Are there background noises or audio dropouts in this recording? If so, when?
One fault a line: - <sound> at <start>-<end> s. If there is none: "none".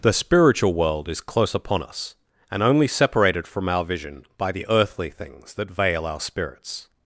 none